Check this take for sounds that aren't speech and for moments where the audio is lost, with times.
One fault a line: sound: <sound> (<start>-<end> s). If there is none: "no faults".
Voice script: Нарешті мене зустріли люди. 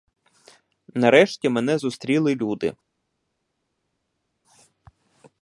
no faults